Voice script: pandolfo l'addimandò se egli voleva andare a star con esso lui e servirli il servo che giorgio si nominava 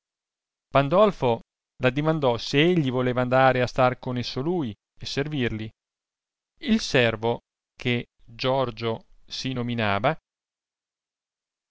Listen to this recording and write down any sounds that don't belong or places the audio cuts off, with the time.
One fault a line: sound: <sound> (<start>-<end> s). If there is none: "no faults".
no faults